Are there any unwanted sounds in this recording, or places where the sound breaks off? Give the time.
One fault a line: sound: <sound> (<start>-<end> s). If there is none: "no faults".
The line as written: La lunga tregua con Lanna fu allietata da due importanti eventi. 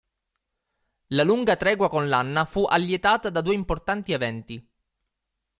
no faults